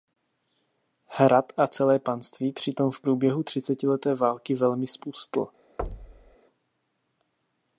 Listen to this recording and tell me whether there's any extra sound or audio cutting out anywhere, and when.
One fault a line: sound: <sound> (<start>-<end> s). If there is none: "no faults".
sound: thud (5.8-6.4 s)